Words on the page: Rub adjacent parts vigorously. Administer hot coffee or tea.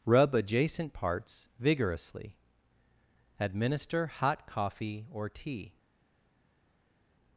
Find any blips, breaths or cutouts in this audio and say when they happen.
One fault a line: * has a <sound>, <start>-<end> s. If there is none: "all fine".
all fine